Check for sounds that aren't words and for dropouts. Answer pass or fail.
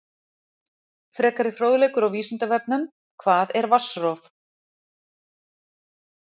pass